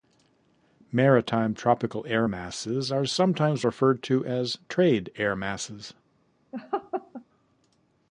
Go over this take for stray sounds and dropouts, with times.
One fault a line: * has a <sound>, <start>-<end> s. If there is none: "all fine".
* has a laugh, 6.5-7.2 s